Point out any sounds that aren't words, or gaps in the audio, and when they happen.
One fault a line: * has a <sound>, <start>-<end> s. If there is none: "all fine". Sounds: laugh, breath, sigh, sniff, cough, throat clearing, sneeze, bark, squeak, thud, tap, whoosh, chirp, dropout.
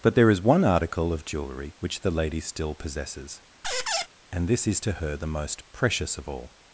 * has a squeak, 3.6-4.1 s